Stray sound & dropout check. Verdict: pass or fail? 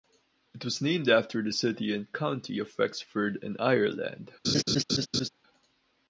fail